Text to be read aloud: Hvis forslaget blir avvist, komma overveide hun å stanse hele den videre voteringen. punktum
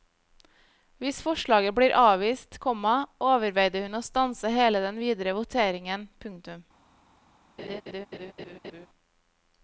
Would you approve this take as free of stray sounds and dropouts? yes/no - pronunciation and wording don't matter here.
no